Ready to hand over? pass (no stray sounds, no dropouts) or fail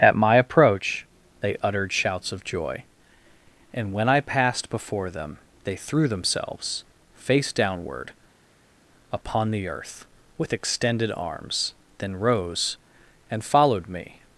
pass